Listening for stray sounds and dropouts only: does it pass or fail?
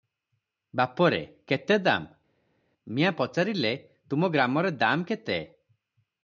pass